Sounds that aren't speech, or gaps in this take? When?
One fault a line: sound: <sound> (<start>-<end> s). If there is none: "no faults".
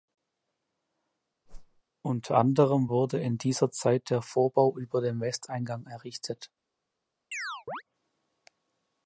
sound: whoosh (1.5-1.8 s)
sound: chirp (7.3-7.8 s)